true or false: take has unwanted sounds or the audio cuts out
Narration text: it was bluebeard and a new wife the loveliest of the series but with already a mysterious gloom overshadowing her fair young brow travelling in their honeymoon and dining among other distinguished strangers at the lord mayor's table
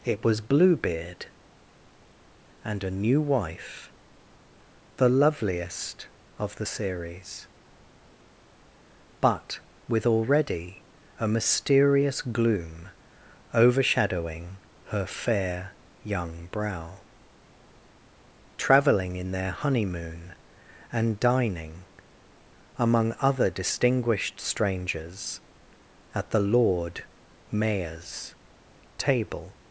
false